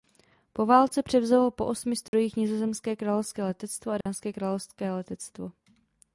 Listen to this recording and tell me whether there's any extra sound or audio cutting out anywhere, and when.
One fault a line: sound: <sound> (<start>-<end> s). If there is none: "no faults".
sound: dropout (2.1-2.1 s)
sound: dropout (4.0-4.1 s)